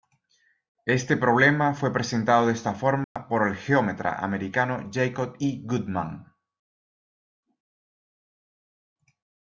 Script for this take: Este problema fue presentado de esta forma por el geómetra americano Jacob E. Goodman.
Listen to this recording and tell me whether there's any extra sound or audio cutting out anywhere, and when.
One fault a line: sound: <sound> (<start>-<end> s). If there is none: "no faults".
sound: dropout (3.0-3.2 s)